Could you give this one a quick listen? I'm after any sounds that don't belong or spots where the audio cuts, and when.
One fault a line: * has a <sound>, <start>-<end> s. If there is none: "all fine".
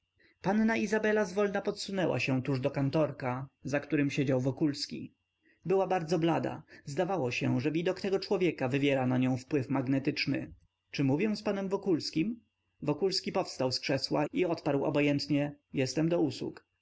all fine